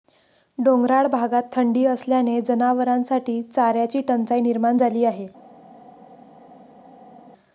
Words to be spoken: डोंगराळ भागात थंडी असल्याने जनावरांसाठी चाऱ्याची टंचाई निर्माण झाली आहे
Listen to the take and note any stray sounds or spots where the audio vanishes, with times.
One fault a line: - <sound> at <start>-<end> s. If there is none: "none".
none